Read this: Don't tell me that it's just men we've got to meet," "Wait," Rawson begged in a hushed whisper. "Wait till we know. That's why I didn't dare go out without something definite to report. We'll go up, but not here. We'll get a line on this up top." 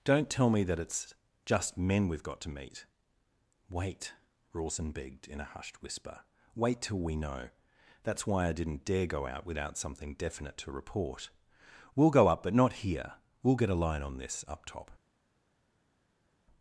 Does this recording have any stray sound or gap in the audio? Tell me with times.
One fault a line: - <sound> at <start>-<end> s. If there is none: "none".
none